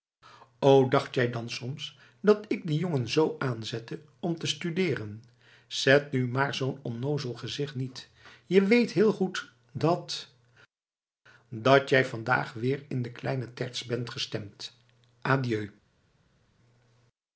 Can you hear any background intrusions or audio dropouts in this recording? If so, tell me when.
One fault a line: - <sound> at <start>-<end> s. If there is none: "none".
none